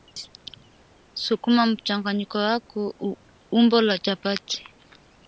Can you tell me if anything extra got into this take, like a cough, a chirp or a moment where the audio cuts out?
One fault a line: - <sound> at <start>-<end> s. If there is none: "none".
none